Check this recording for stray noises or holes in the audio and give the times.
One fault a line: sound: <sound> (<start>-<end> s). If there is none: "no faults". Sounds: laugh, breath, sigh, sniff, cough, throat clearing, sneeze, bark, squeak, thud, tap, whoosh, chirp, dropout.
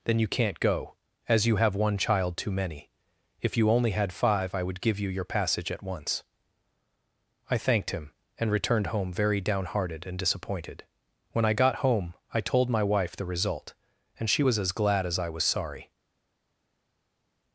no faults